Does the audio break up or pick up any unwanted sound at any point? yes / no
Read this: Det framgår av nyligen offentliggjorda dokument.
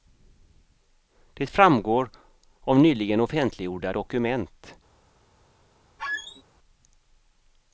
yes